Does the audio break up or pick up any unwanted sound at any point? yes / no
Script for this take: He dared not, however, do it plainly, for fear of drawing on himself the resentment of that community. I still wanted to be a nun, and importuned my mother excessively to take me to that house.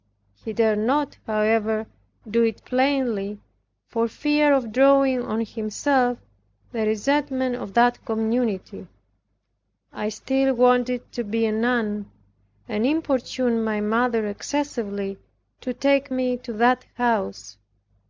no